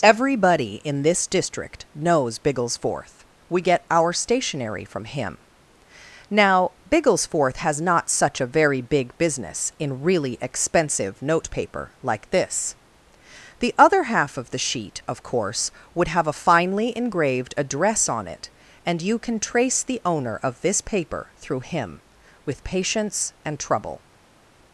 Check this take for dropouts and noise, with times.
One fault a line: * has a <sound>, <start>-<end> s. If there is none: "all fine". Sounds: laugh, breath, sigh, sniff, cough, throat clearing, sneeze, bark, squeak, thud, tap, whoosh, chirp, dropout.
all fine